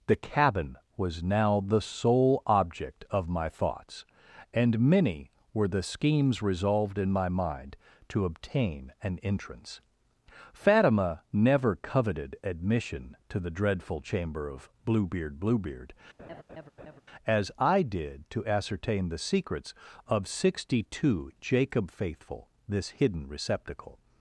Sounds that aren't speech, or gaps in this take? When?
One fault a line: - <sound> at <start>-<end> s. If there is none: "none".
- laugh at 16.2-17.0 s